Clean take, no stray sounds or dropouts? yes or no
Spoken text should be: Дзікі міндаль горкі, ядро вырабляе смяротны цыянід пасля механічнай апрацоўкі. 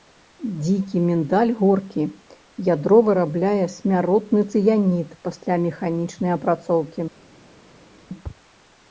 yes